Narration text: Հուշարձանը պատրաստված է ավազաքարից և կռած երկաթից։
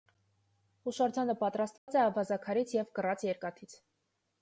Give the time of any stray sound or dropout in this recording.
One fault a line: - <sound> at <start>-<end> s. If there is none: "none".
- dropout at 1.8-1.9 s